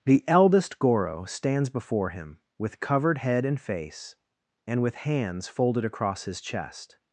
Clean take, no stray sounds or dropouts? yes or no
yes